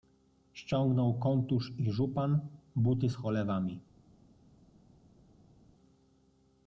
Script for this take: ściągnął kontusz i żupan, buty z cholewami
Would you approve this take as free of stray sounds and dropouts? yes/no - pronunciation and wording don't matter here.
yes